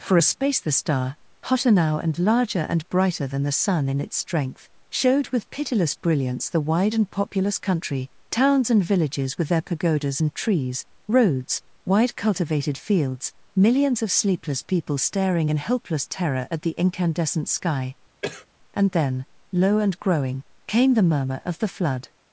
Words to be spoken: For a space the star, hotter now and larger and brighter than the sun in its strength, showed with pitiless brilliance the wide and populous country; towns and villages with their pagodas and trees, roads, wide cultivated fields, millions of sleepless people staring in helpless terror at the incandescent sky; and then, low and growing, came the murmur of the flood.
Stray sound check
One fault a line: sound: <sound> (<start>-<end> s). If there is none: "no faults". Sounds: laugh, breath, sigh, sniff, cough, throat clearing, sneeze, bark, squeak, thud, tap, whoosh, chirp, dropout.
sound: cough (18.2-18.5 s)